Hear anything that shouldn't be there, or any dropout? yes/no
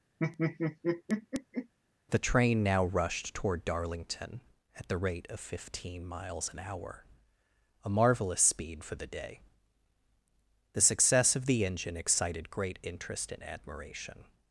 yes